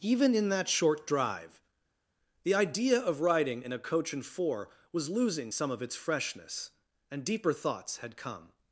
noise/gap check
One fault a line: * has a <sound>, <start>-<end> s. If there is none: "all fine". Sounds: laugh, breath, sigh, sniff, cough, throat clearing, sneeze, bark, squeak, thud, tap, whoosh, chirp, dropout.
all fine